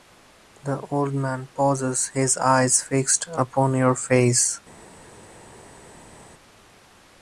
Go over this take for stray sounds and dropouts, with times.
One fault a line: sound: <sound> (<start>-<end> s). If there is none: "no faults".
no faults